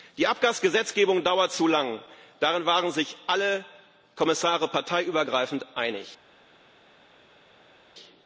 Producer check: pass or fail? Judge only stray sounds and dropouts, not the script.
pass